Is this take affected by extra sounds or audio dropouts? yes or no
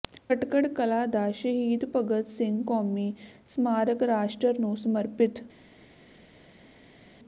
no